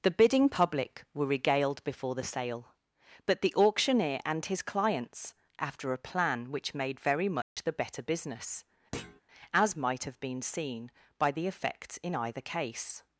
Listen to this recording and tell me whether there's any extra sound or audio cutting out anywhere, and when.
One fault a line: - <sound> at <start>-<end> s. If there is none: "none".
- dropout at 7.4-7.6 s
- thud at 8.9-9.2 s